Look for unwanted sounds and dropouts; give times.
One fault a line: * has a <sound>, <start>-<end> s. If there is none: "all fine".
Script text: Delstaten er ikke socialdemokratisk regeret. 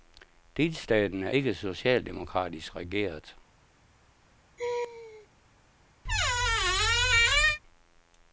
* has a laugh, 4.6-5.3 s
* has a squeak, 6.0-7.6 s